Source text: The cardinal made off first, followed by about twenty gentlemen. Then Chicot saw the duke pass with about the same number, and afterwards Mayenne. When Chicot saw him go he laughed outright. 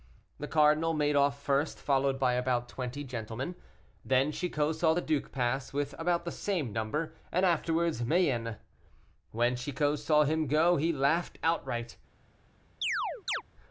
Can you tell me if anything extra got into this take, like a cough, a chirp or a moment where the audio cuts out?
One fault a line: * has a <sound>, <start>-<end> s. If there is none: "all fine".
* has a chirp, 12.8-13.4 s